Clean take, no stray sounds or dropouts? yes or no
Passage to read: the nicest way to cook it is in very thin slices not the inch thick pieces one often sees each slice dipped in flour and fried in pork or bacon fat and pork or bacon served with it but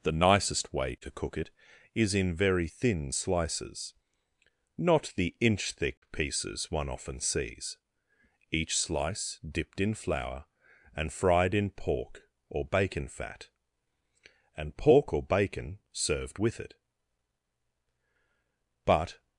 yes